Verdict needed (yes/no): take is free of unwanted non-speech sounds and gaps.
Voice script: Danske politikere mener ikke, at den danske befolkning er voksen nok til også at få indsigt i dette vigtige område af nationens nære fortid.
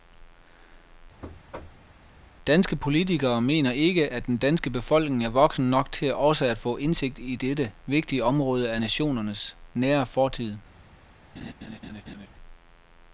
no